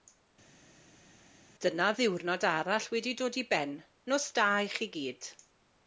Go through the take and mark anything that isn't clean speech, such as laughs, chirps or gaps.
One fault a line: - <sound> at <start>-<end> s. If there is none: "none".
none